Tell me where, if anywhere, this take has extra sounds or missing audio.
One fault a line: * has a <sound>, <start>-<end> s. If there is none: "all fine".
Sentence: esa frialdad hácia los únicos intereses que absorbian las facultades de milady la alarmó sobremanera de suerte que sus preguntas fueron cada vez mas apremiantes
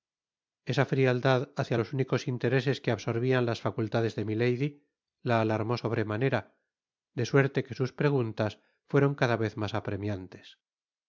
all fine